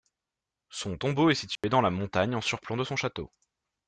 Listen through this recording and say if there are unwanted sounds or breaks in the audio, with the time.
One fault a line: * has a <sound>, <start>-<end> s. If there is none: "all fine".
* has a dropout, 1.6-1.6 s